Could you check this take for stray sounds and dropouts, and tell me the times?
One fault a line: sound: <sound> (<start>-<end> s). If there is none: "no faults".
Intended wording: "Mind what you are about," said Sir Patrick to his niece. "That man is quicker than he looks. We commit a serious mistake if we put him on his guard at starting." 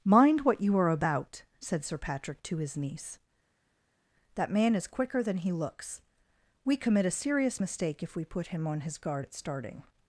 no faults